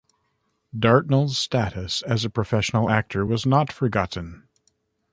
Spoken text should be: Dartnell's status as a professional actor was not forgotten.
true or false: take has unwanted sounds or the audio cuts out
false